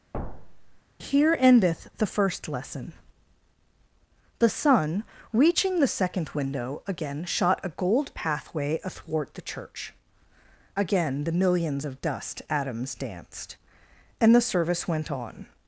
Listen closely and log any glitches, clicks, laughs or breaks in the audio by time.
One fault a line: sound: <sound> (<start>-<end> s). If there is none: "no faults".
sound: thud (0.1-0.8 s)